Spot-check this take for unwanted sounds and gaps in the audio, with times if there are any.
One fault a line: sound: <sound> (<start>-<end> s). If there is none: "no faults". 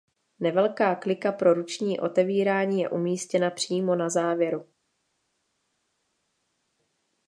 no faults